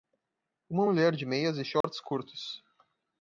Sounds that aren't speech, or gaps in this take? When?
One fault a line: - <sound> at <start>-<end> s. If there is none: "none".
- dropout at 1.8-1.8 s